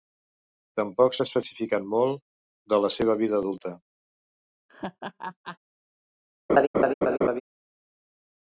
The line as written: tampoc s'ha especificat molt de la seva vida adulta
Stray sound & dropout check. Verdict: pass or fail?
fail